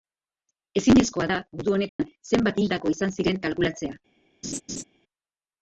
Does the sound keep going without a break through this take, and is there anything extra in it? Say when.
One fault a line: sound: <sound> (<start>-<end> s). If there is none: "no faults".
sound: dropout (1.9-2.0 s)
sound: laugh (4.4-4.8 s)